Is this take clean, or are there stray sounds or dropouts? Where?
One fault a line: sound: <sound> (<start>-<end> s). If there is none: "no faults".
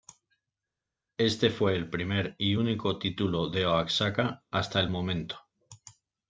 no faults